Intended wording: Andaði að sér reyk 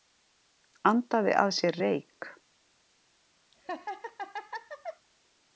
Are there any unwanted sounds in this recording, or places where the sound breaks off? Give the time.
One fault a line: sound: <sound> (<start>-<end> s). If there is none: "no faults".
sound: laugh (3.5-5.1 s)